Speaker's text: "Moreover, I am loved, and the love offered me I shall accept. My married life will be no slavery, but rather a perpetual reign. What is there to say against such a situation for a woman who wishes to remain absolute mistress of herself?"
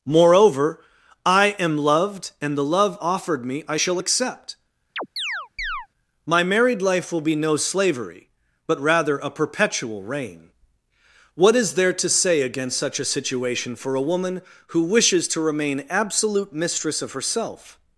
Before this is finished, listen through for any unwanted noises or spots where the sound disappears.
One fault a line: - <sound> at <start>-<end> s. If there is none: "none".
- chirp at 5.0-5.9 s